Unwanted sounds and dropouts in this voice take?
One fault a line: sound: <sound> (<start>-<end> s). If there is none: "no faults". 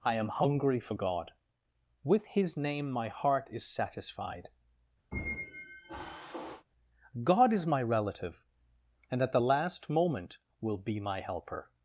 sound: squeak (5.1-6.7 s)